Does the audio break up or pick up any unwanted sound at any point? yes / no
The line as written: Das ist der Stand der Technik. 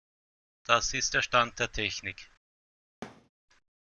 yes